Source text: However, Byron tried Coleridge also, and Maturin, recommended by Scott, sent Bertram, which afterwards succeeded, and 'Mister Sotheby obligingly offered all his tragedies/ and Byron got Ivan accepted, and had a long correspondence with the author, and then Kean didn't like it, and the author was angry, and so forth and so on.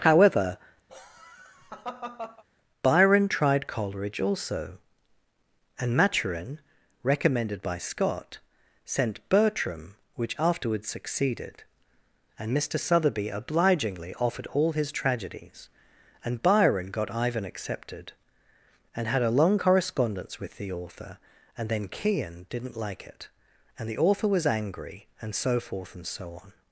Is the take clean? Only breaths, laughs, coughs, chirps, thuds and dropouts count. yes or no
no